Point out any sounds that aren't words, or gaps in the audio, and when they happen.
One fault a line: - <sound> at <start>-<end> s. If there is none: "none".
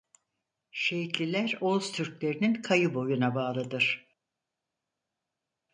none